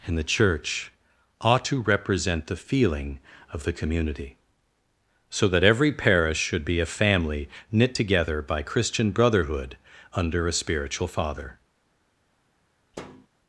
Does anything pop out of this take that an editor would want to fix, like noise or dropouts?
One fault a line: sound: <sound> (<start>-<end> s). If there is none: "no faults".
sound: thud (12.9-13.3 s)